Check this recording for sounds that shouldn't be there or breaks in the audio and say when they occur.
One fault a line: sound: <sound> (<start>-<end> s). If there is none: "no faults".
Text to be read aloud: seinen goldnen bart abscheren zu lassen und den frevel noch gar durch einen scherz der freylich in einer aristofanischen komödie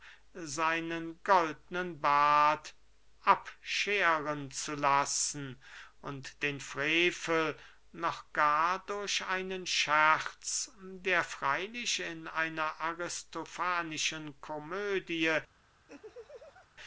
sound: laugh (15.9-16.7 s)